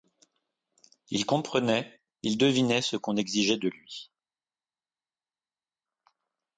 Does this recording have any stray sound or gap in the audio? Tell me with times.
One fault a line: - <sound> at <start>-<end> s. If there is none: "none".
none